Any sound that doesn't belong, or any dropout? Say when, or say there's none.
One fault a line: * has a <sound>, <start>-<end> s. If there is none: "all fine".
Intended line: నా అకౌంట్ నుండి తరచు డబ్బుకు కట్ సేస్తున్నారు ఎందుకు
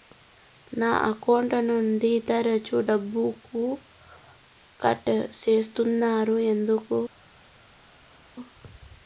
all fine